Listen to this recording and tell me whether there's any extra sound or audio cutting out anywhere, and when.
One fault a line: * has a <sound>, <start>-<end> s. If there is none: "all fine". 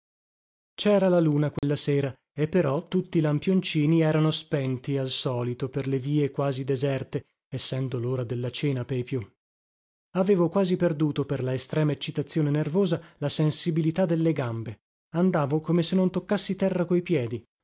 * has a dropout, 1.6-1.6 s